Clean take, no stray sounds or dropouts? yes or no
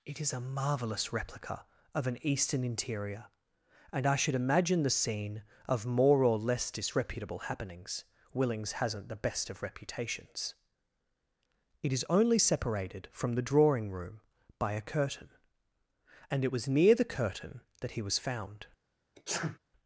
no